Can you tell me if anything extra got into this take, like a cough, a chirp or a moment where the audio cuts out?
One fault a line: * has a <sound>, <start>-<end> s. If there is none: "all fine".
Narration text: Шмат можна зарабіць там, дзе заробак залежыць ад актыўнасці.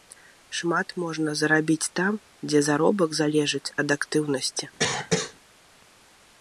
* has a cough, 4.8-5.3 s